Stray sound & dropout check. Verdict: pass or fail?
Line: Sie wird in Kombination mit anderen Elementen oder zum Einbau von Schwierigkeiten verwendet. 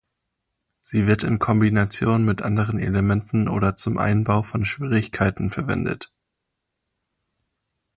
pass